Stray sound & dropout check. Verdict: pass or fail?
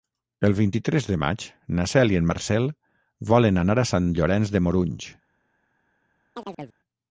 fail